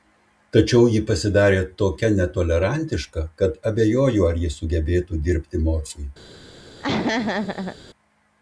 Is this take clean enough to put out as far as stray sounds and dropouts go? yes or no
no